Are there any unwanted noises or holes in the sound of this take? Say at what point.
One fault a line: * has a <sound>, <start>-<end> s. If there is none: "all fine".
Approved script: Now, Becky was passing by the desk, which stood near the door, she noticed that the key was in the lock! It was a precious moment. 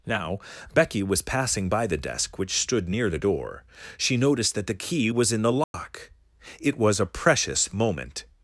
* has a dropout, 5.6-5.7 s